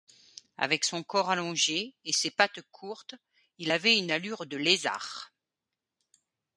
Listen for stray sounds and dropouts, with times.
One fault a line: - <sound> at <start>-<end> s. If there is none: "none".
none